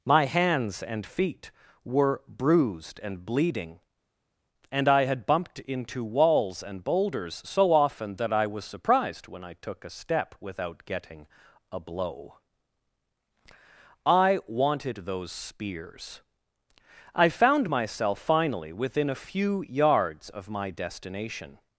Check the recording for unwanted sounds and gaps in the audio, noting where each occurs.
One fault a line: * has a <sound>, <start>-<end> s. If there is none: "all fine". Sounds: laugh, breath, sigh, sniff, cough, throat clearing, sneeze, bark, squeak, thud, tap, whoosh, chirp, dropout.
all fine